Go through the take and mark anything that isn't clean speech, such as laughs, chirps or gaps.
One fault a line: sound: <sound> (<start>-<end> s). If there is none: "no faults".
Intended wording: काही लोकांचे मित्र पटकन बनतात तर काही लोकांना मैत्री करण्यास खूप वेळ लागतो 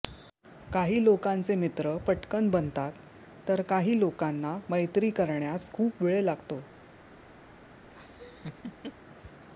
sound: laugh (7.9-8.9 s)